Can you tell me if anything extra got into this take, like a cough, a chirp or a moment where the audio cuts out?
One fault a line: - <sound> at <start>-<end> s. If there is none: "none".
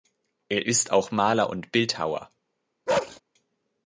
- bark at 2.9-3.2 s